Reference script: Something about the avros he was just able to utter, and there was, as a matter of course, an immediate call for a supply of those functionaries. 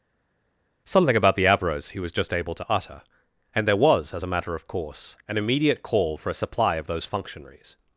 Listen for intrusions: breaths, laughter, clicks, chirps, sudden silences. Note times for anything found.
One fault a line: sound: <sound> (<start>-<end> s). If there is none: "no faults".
no faults